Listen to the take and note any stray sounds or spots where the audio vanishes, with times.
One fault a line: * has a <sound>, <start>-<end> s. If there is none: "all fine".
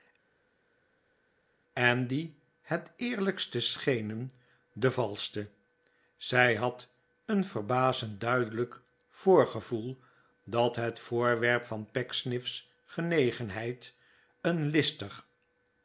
all fine